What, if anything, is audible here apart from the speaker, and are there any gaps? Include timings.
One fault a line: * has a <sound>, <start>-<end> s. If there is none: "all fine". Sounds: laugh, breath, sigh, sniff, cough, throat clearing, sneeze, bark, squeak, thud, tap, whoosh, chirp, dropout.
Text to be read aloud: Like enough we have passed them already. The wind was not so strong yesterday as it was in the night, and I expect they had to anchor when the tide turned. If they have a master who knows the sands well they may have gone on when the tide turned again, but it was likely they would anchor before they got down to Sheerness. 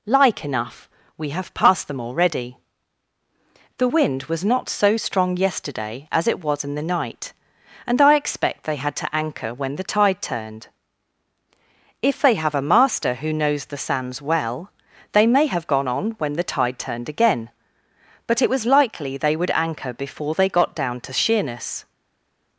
all fine